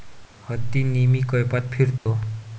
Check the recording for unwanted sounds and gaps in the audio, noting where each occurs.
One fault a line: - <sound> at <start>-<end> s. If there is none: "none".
- dropout at 2.0-2.1 s